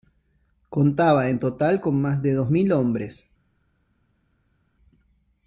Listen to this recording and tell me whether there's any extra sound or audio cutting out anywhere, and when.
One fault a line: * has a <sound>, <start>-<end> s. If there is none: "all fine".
all fine